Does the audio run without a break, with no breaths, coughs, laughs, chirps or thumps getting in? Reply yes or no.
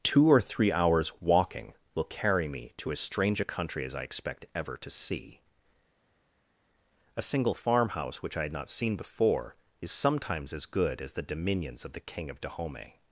yes